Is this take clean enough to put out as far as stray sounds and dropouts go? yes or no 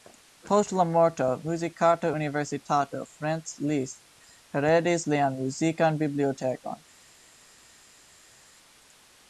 yes